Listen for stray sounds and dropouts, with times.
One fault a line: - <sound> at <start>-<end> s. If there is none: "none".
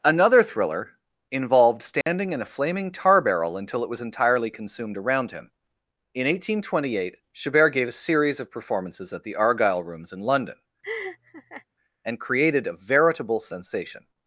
- dropout at 2.0-2.1 s
- laugh at 10.8-11.6 s